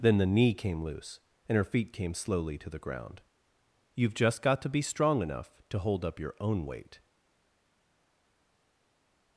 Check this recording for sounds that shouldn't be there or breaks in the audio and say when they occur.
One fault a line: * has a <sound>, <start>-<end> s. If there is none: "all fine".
all fine